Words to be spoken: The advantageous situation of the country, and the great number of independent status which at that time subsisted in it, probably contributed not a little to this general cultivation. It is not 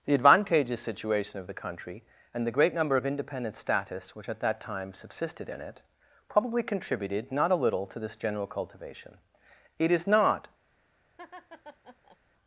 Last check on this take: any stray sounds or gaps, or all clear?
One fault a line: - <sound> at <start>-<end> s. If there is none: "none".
- laugh at 11.2-12.2 s